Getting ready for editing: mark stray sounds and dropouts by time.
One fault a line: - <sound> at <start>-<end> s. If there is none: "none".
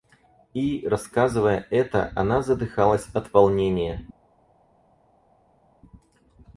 none